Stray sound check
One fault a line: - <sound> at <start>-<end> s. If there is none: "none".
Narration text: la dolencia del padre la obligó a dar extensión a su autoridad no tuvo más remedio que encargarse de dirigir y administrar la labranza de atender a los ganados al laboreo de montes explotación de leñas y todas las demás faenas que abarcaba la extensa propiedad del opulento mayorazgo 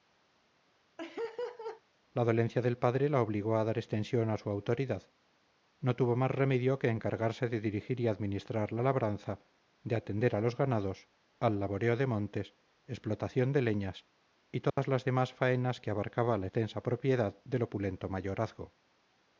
- laugh at 1.0-1.8 s
- dropout at 14.7-14.8 s